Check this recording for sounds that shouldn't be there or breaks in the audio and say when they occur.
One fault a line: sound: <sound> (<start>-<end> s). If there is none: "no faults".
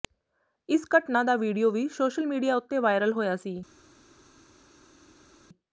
no faults